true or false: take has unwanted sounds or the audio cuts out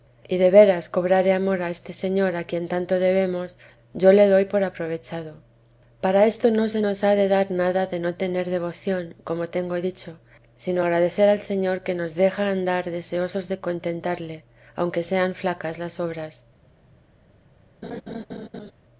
true